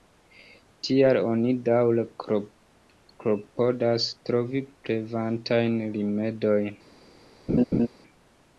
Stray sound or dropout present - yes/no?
yes